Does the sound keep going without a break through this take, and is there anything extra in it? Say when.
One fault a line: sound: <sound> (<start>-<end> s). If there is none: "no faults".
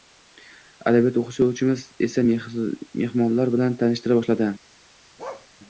sound: bark (5.2-5.5 s)